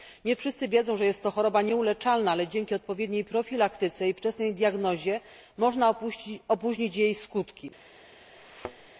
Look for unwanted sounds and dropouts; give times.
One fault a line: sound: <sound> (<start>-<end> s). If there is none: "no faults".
sound: thud (8.4-8.9 s)